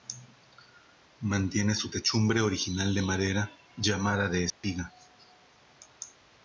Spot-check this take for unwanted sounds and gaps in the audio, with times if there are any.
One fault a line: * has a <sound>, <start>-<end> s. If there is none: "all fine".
* has a dropout, 4.5-4.6 s